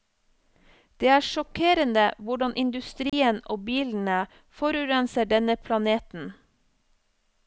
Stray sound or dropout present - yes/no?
yes